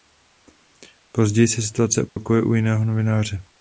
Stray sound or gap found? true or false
true